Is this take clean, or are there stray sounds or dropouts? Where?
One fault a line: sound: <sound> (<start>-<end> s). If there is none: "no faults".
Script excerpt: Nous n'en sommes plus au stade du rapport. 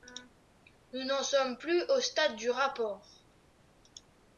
no faults